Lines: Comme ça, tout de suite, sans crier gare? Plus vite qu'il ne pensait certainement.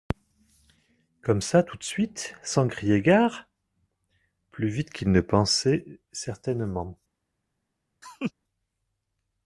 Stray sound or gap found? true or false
true